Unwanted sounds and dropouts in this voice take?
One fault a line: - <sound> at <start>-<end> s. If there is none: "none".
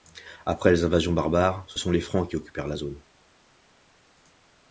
none